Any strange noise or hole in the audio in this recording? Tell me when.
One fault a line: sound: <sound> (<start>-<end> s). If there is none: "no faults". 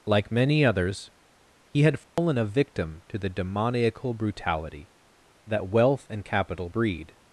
sound: dropout (2.0-2.2 s)